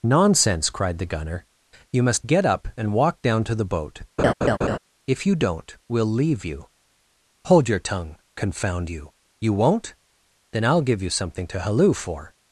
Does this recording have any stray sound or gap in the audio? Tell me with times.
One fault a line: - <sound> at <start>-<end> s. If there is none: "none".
- laugh at 4.2-4.8 s